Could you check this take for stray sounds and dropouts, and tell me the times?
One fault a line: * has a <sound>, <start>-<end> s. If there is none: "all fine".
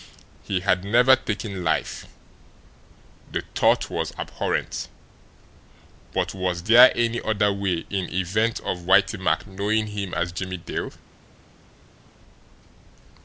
all fine